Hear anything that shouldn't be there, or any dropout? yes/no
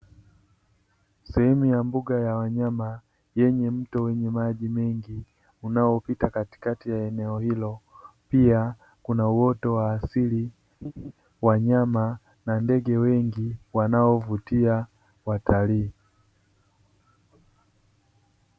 yes